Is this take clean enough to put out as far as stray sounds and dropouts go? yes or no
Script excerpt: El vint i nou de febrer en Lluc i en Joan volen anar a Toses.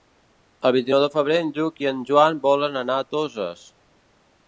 yes